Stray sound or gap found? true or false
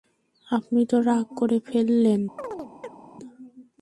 true